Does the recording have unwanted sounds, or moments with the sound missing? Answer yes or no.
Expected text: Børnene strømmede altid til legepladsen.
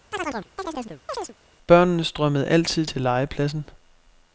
yes